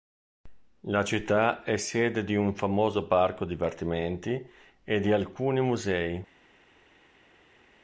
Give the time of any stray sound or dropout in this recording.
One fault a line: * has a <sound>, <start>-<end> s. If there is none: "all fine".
all fine